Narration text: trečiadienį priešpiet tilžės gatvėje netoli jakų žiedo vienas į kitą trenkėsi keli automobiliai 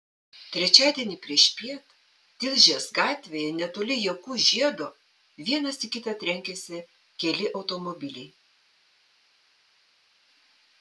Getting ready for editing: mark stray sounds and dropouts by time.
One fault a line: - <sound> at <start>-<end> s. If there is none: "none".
none